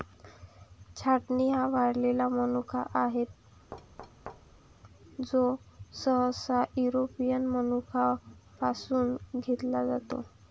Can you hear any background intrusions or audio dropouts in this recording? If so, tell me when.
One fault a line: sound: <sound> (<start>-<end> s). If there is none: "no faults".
sound: thud (3.7-4.8 s)